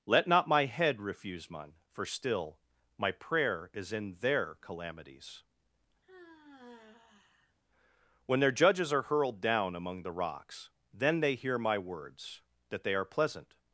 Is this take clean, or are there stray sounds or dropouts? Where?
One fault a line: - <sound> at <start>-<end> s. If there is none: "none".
- sigh at 6.0-7.6 s